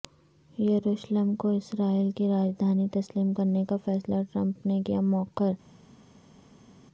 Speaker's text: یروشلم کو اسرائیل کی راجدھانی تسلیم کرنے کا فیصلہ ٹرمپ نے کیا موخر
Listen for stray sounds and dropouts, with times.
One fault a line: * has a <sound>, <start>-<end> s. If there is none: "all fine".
all fine